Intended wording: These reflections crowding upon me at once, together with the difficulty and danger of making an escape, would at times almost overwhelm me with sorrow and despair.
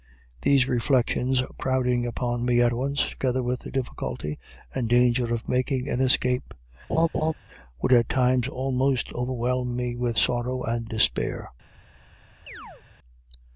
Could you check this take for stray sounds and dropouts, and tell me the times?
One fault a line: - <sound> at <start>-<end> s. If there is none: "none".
- laugh at 6.9-7.3 s
- chirp at 12.5-12.8 s